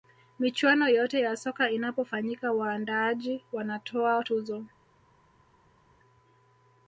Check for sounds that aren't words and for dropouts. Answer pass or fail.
pass